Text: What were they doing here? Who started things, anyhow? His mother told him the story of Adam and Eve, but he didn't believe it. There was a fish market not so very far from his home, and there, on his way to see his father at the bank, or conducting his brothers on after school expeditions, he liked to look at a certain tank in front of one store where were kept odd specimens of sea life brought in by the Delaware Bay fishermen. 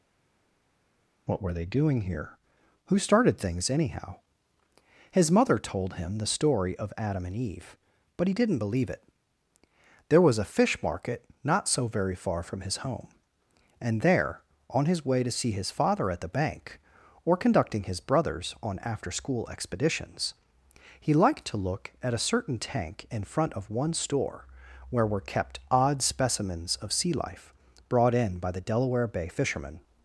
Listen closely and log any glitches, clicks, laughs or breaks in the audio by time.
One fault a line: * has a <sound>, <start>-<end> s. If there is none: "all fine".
all fine